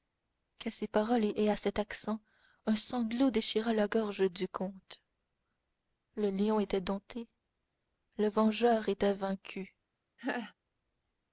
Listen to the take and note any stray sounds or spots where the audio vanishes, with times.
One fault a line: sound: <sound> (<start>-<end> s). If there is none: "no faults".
sound: laugh (10.2-10.5 s)